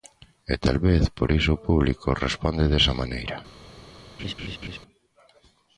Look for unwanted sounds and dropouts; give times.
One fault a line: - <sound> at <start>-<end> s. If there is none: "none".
- laugh at 4.2-4.8 s